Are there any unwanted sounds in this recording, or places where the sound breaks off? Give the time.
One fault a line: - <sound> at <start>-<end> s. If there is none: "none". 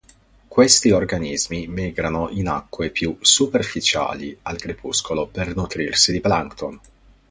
none